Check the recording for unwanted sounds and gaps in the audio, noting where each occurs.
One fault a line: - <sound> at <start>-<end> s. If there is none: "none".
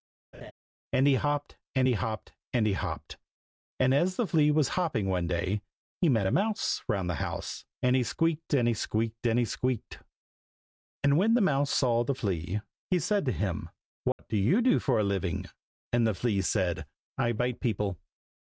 - laugh at 0.3-0.5 s
- dropout at 14.1-14.2 s